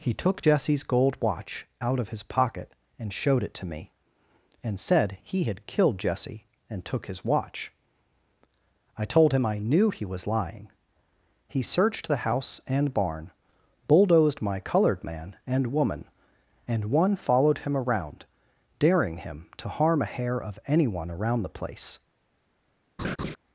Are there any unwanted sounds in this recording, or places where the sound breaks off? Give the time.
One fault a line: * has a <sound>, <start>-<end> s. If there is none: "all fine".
* has a laugh, 23.0-23.4 s